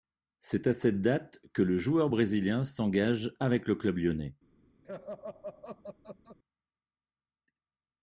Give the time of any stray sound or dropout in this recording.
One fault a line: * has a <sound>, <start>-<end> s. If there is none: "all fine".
* has a laugh, 4.8-6.4 s